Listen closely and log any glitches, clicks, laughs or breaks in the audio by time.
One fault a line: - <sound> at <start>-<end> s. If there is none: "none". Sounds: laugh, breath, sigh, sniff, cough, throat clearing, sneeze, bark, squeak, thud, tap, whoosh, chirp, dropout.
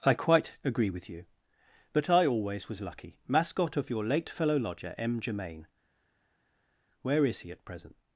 none